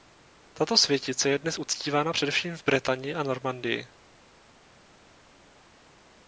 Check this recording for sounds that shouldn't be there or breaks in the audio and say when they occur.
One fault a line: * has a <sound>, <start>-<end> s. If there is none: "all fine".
all fine